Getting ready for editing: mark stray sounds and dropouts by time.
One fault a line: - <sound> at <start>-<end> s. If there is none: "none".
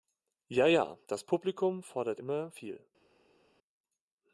none